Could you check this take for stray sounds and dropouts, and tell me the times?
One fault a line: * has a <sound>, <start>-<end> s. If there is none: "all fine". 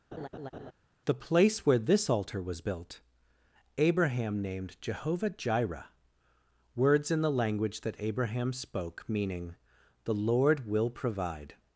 * has a laugh, 0.1-0.7 s